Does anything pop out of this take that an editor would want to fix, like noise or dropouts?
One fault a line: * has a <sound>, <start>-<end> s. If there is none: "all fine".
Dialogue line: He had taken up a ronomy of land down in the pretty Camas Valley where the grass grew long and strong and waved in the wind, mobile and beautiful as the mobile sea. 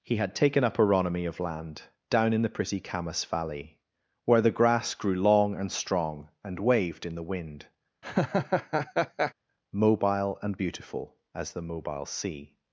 * has a laugh, 8.0-9.3 s